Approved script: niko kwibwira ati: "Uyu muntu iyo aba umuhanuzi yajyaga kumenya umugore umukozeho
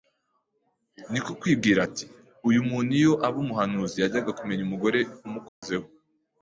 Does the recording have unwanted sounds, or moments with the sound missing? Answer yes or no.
yes